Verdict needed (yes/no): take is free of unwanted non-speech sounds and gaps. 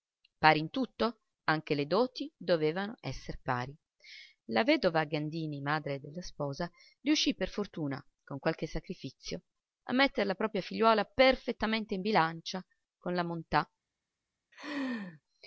no